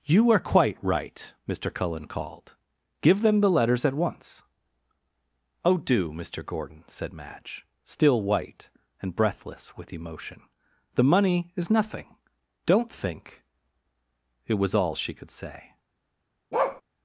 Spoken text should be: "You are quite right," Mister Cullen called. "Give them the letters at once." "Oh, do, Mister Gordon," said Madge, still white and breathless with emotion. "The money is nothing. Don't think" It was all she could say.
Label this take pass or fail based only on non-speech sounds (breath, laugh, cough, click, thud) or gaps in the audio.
fail